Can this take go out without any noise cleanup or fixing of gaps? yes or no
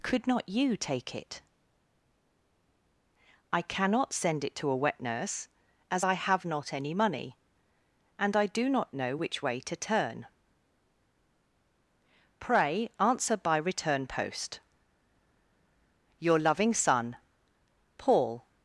yes